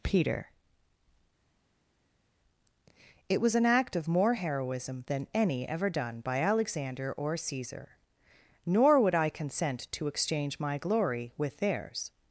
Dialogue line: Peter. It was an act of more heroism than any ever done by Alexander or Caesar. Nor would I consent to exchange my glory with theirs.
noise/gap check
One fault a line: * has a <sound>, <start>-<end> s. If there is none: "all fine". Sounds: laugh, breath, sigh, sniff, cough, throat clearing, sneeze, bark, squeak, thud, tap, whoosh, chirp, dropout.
all fine